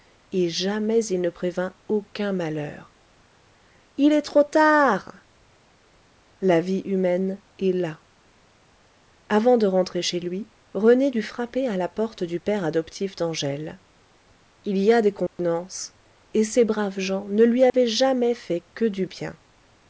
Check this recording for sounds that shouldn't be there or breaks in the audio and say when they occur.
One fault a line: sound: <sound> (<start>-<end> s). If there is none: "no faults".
sound: dropout (15.3-15.4 s)
sound: dropout (17.7-17.7 s)